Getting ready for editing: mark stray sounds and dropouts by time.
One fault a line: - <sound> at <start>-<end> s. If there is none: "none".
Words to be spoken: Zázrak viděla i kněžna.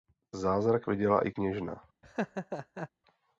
- laugh at 2.0-2.9 s